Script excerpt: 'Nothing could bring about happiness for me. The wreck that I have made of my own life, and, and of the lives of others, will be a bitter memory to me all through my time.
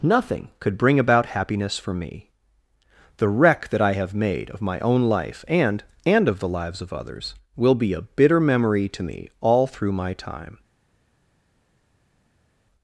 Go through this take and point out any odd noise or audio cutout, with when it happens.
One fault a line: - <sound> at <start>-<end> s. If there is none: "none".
none